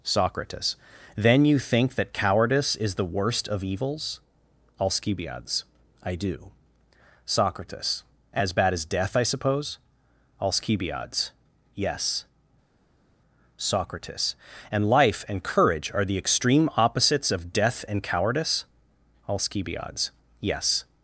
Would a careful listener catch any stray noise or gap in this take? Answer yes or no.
no